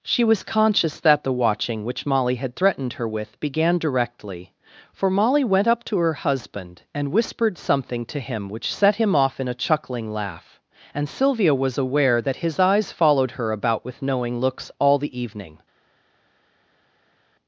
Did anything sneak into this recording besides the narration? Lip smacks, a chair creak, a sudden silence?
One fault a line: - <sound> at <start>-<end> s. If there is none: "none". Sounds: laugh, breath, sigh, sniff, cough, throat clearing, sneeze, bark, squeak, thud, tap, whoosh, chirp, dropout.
none